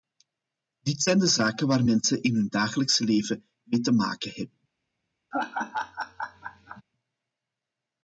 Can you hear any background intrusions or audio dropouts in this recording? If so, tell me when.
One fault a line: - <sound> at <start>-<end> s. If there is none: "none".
- laugh at 5.3-6.8 s